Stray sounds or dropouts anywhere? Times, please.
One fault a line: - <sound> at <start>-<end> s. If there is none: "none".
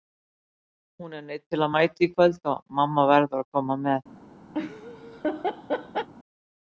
- laugh at 4.5-6.1 s